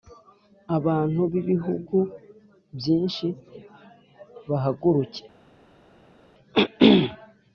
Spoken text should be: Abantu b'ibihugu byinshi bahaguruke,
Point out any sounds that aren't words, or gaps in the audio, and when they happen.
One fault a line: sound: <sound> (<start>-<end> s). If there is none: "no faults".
no faults